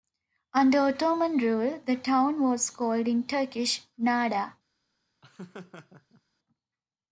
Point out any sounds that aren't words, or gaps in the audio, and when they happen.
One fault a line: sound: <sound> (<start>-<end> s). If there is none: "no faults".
sound: laugh (5.2-6.2 s)